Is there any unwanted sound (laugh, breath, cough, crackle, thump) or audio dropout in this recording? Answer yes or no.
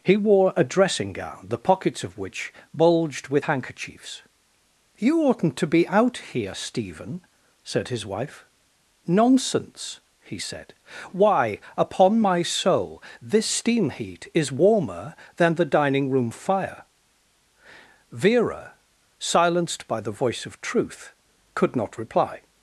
no